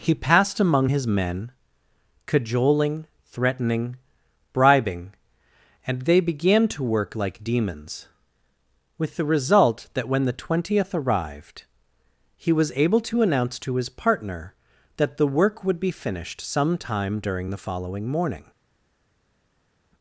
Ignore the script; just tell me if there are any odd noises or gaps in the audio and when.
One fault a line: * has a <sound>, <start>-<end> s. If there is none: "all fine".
all fine